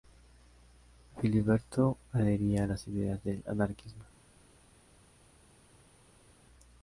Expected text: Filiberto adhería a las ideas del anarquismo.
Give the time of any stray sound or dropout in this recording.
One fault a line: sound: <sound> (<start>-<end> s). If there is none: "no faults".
no faults